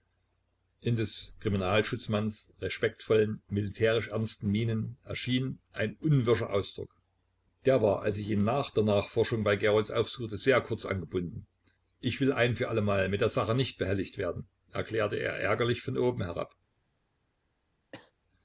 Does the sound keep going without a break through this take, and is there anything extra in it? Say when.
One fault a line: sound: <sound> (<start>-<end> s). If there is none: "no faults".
sound: cough (17.9-18.1 s)